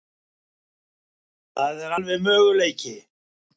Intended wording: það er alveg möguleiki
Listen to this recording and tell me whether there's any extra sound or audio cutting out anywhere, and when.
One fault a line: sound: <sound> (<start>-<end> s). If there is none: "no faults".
no faults